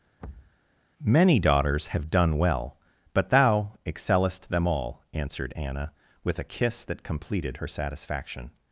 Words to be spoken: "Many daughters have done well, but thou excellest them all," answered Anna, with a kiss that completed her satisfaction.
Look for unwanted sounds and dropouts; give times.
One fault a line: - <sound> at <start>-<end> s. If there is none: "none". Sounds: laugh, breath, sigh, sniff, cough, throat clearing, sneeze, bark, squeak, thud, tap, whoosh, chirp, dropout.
- thud at 0.2-0.6 s